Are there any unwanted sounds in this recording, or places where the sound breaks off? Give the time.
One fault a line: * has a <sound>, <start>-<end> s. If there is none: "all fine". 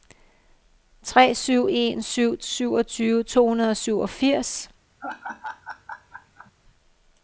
* has a laugh, 5.0-6.5 s